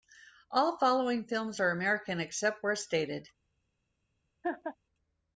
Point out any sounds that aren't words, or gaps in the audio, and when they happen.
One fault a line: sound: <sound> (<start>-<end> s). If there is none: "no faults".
sound: laugh (4.4-4.8 s)